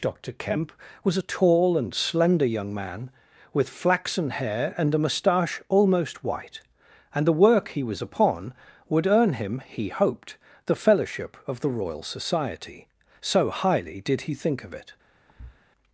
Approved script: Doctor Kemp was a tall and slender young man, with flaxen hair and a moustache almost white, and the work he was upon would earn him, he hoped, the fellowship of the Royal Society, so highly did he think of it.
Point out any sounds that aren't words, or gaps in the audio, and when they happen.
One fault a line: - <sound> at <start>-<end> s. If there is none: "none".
- thud at 15.3-15.6 s